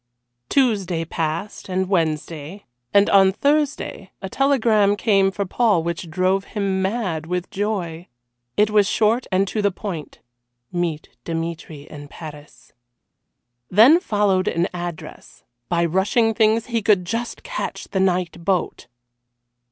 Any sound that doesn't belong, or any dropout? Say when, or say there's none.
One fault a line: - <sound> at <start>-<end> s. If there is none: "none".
none